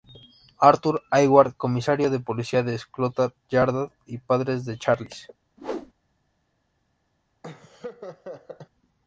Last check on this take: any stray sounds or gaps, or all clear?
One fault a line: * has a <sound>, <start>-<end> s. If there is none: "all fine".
* has a whoosh, 5.6-5.9 s
* has a laugh, 7.4-8.7 s